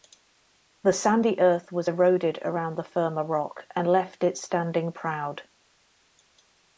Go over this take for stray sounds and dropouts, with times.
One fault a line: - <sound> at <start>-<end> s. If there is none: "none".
none